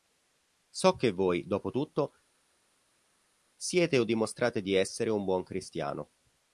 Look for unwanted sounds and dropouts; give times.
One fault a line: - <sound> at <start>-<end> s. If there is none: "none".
none